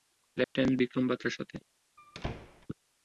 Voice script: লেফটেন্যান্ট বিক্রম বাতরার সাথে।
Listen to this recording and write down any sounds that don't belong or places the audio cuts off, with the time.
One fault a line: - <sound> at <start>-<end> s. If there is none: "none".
- dropout at 0.4-0.6 s
- squeak at 2.0-2.7 s